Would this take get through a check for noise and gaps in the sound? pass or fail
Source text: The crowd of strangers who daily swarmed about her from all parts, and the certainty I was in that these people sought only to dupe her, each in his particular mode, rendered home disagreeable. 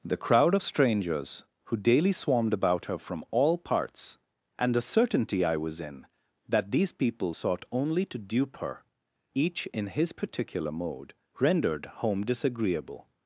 pass